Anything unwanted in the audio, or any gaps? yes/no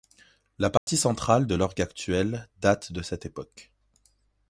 yes